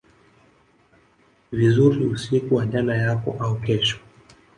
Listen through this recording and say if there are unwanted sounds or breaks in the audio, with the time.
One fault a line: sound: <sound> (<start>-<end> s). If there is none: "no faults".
no faults